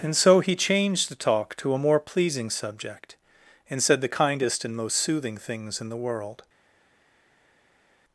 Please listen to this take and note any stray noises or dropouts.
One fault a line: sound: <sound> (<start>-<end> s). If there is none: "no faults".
no faults